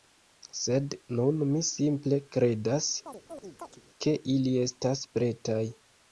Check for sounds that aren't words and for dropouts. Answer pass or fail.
fail